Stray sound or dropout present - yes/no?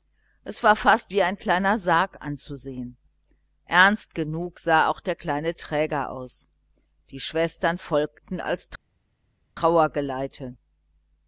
no